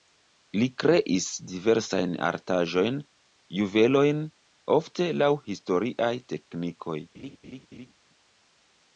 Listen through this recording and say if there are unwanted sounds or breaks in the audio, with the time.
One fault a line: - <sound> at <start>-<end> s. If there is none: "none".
- laugh at 7.1-7.9 s